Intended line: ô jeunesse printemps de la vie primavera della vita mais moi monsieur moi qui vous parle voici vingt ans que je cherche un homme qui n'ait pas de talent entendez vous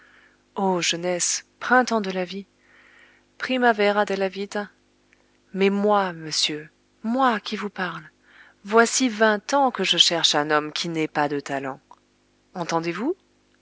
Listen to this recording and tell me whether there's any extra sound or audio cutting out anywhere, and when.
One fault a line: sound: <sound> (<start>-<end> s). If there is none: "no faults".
no faults